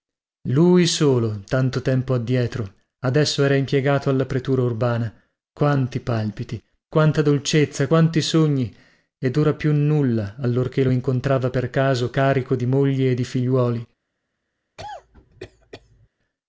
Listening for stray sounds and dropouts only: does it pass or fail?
fail